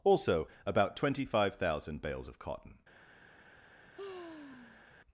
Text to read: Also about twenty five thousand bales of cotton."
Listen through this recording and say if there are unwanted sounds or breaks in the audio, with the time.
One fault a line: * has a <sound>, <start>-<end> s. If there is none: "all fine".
* has a sigh, 4.0-4.9 s